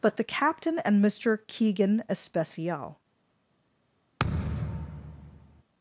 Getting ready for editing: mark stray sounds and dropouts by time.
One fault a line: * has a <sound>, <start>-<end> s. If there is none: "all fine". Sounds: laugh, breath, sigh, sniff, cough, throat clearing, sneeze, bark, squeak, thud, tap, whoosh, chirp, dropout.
* has a thud, 4.2-5.6 s